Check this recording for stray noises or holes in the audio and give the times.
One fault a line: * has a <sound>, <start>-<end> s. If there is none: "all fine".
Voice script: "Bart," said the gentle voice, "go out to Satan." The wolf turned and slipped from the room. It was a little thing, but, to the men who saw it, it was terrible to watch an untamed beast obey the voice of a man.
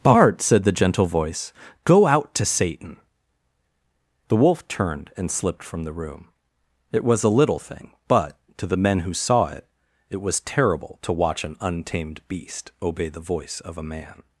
all fine